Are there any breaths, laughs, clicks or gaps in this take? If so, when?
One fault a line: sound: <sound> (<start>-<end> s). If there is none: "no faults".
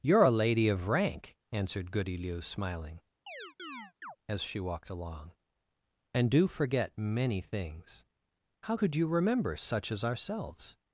sound: chirp (3.3-4.2 s)